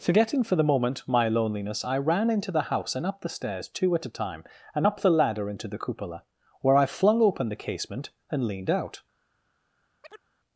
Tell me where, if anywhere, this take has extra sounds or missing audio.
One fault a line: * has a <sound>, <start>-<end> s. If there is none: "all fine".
* has a chirp, 10.0-10.3 s